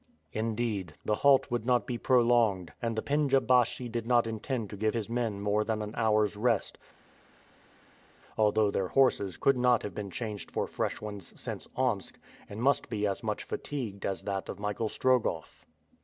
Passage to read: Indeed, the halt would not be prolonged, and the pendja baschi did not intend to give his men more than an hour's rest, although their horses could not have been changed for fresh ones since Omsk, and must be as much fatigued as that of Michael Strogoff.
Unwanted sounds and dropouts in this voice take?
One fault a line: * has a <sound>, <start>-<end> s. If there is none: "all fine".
all fine